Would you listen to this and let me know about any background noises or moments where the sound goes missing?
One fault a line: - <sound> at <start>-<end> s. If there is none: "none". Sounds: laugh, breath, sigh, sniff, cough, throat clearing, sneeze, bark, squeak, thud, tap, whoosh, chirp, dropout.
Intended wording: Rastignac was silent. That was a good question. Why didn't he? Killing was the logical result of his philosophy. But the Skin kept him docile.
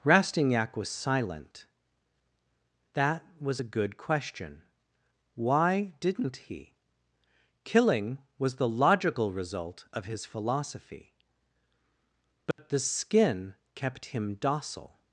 - dropout at 12.5-12.6 s